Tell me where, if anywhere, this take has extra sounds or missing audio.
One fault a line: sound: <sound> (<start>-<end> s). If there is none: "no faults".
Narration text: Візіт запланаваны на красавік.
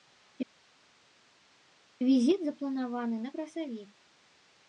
no faults